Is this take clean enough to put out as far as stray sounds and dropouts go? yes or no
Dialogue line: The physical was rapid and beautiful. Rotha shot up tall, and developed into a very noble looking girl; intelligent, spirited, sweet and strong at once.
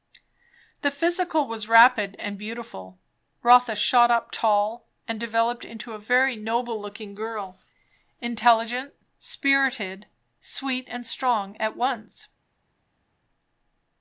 yes